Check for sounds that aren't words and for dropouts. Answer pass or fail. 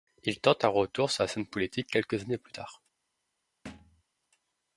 fail